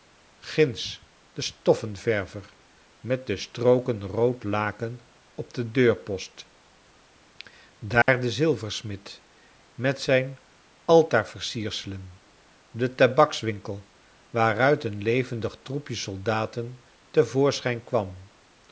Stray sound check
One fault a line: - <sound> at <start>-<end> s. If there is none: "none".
- dropout at 8.0-8.1 s